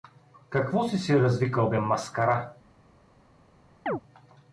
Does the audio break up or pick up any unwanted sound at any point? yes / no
yes